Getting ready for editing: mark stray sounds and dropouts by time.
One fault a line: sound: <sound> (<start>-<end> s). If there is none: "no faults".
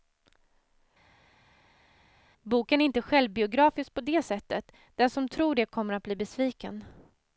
no faults